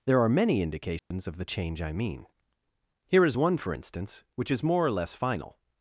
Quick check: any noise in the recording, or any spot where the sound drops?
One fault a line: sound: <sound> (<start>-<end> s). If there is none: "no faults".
sound: dropout (1.0-1.1 s)